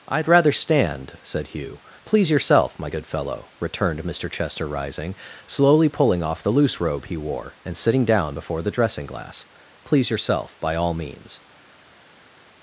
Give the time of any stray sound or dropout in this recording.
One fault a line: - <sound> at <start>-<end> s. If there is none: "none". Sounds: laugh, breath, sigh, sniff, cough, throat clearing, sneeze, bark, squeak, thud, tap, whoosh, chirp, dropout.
none